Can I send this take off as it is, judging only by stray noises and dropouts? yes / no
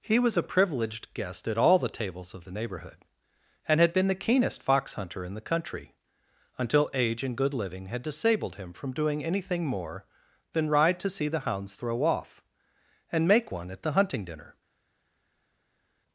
yes